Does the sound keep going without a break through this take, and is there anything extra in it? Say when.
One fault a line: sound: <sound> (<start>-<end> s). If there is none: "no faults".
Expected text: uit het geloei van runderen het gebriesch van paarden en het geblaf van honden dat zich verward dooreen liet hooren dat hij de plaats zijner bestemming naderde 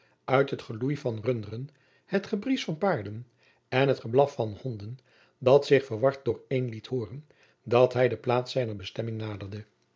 no faults